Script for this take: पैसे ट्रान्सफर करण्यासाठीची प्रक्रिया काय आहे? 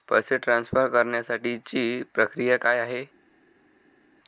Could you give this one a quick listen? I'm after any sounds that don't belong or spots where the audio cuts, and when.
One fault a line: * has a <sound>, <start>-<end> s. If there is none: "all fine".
all fine